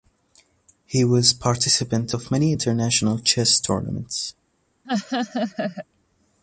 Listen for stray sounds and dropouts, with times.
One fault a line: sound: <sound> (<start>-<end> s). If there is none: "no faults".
sound: laugh (4.8-5.9 s)